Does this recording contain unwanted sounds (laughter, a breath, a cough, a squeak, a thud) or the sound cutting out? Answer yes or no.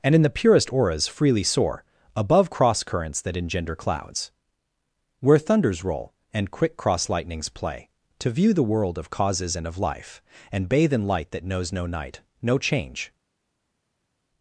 no